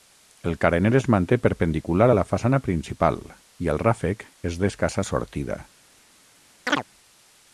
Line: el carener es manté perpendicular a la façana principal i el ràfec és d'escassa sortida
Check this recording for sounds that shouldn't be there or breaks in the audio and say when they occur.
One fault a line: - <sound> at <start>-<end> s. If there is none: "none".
- chirp at 6.7-6.8 s